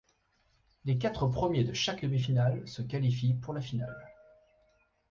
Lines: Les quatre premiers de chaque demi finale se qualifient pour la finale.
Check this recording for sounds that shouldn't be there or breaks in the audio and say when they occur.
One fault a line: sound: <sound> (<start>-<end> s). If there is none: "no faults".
no faults